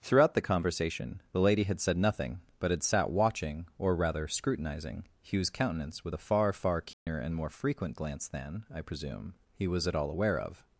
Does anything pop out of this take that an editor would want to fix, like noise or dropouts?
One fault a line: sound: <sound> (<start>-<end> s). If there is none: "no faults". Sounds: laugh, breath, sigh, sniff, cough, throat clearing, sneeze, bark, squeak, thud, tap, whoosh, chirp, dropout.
sound: dropout (6.9-7.1 s)